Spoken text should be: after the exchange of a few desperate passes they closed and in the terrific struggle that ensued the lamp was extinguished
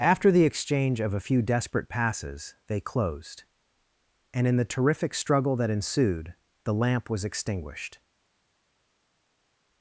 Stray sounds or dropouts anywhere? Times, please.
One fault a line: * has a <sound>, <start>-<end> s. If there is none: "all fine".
all fine